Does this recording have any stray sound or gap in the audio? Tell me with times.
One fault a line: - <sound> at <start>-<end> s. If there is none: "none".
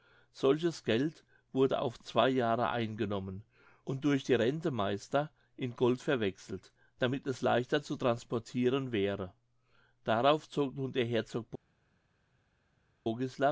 none